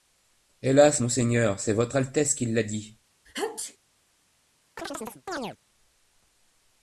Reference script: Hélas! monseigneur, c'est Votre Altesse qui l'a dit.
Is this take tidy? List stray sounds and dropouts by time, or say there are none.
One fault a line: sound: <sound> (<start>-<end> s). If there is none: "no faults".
sound: sneeze (3.3-3.8 s)
sound: chirp (4.8-5.6 s)